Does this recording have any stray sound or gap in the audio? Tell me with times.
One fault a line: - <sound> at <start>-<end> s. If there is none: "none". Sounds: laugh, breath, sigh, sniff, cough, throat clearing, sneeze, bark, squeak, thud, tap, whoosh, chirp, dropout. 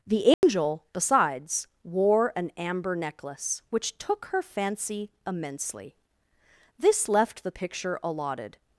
- dropout at 0.3-0.4 s